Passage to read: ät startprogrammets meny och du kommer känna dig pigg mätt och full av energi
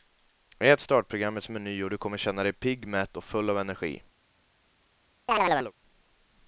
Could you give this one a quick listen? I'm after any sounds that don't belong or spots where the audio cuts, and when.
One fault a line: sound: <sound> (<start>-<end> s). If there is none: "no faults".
sound: chirp (5.3-5.7 s)